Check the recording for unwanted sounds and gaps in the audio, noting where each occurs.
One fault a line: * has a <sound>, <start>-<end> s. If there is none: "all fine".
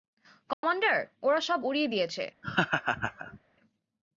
* has a dropout, 0.5-0.6 s
* has a laugh, 2.4-3.4 s